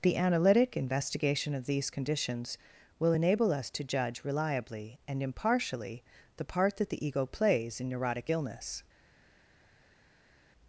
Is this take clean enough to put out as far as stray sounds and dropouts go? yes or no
yes